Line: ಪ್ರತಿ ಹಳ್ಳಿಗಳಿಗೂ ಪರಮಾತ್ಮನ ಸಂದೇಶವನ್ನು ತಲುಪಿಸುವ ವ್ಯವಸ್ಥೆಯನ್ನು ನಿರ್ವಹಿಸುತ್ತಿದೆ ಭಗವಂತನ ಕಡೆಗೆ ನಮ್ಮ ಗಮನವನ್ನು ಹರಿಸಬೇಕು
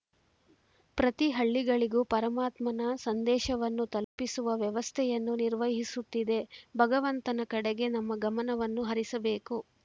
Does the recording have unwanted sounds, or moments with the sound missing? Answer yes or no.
yes